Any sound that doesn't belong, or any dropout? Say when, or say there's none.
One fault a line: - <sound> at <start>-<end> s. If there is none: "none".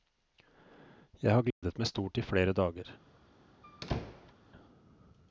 - dropout at 1.5-1.6 s
- squeak at 3.6-4.3 s